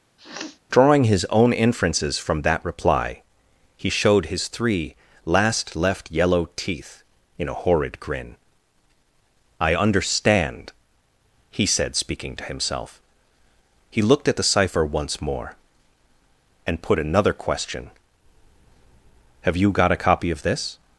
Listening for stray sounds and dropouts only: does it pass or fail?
fail